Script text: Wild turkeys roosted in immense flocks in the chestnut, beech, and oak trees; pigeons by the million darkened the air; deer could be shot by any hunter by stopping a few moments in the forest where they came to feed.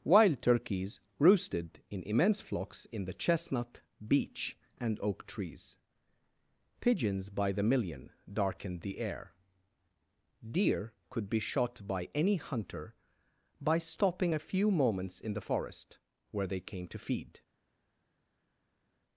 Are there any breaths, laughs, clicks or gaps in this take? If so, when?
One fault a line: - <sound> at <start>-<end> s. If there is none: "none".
none